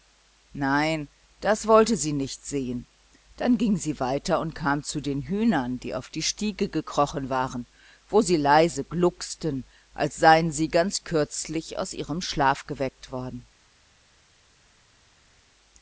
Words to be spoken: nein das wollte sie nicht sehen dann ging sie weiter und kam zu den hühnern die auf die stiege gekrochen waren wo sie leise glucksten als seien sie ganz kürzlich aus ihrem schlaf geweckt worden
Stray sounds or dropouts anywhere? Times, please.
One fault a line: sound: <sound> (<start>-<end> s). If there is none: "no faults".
no faults